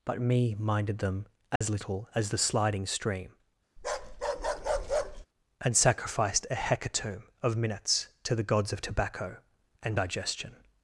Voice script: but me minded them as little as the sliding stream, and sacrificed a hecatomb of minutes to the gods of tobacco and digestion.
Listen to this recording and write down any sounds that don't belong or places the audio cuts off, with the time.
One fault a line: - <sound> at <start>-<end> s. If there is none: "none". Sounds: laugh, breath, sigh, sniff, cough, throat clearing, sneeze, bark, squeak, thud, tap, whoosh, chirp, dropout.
- dropout at 1.6-1.6 s
- bark at 3.8-5.3 s